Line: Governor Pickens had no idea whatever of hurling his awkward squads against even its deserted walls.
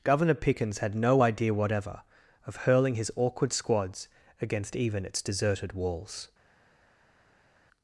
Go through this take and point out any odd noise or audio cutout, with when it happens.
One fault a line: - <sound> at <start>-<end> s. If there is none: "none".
none